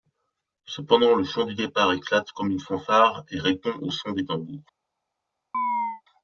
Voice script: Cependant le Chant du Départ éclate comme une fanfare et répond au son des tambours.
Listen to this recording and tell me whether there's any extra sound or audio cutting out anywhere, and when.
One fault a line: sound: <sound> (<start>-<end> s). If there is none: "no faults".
sound: chirp (5.5-6.0 s)